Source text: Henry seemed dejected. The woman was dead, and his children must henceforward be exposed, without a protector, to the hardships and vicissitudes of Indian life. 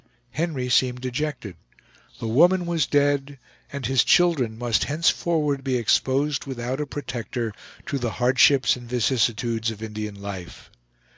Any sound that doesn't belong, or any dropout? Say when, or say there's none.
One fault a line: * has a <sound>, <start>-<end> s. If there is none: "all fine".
all fine